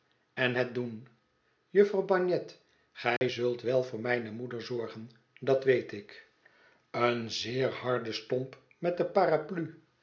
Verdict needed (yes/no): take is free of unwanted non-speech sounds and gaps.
no